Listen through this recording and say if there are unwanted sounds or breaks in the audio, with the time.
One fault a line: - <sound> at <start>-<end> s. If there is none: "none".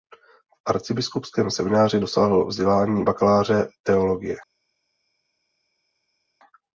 none